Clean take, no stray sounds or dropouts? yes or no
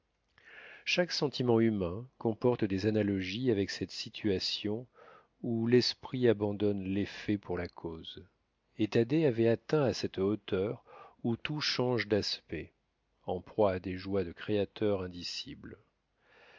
yes